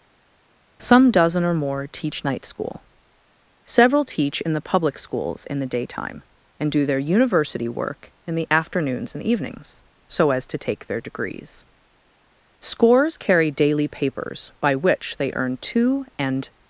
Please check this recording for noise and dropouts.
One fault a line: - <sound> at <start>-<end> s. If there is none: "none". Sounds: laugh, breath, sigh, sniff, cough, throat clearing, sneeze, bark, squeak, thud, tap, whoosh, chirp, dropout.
none